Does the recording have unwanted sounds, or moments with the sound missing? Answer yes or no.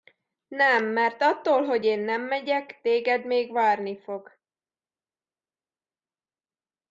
no